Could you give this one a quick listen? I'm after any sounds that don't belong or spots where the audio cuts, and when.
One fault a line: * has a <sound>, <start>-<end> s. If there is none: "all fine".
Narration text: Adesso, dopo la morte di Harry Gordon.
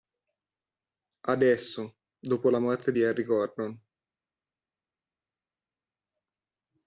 all fine